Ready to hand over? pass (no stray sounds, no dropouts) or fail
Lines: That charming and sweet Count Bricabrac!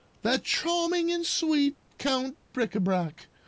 pass